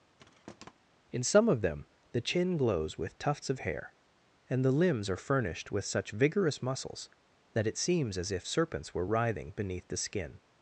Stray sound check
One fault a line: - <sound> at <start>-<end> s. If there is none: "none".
- thud at 0.2-0.7 s